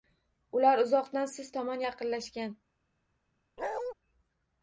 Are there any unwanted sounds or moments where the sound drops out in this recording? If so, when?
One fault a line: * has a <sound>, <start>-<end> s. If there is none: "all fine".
* has a bark, 3.6-3.9 s